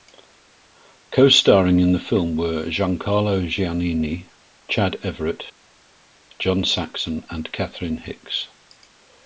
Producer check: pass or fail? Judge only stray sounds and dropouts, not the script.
pass